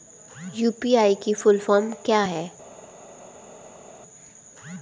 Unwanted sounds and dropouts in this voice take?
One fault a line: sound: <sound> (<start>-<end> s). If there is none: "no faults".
no faults